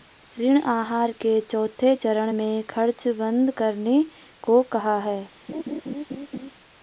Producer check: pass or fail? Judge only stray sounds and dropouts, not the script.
fail